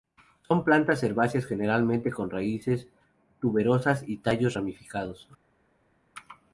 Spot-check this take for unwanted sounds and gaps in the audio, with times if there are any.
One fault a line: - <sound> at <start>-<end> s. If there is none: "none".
none